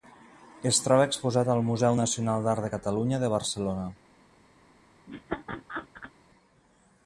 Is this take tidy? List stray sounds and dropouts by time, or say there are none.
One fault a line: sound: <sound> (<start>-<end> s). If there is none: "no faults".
sound: laugh (5.1-6.1 s)